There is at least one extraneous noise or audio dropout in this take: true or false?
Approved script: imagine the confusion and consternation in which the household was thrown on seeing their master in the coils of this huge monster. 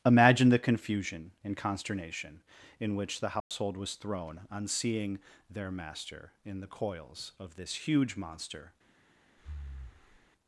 true